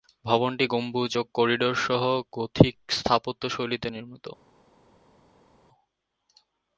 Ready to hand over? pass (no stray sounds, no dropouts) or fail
pass